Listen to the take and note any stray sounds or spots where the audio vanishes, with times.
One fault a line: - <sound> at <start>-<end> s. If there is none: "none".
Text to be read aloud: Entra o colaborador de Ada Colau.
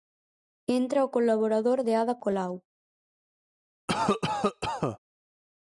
- cough at 3.9-5.0 s